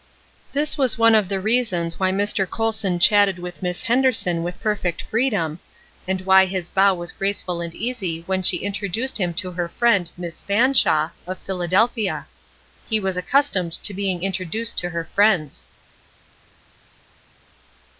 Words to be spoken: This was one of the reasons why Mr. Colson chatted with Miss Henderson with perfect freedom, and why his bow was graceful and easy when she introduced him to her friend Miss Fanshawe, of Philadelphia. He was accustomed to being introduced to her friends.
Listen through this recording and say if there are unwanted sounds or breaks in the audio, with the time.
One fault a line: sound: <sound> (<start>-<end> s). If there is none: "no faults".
no faults